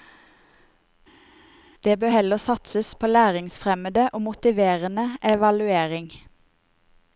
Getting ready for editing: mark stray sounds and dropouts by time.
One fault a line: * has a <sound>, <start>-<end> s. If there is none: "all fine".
all fine